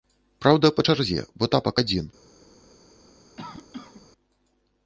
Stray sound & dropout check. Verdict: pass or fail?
fail